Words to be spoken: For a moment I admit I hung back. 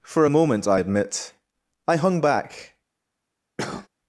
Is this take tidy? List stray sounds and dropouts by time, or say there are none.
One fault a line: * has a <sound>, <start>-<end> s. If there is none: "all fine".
* has a cough, 3.6-3.9 s